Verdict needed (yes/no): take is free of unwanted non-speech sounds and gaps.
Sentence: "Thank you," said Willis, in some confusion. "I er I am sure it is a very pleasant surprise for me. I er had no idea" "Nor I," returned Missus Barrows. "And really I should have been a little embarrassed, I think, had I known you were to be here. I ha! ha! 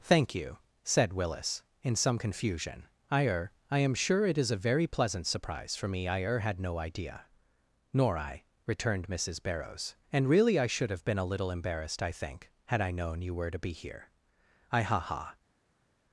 yes